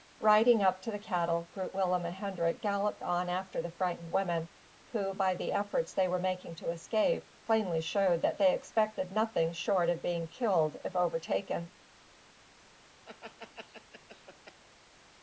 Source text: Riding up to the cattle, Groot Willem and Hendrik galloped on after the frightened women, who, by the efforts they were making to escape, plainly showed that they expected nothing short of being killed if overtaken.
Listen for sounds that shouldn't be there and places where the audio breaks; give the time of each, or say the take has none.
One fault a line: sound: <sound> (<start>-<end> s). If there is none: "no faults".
sound: laugh (13.0-14.6 s)